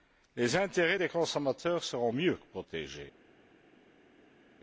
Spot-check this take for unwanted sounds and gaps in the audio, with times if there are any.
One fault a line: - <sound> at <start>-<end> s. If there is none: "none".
none